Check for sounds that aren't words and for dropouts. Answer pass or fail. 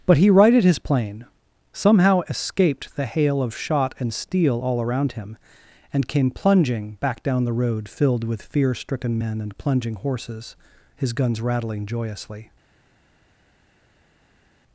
pass